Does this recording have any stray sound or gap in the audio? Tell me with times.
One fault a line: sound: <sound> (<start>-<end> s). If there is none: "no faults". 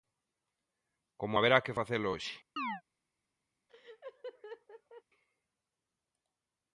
sound: chirp (2.6-2.8 s)
sound: laugh (3.7-5.0 s)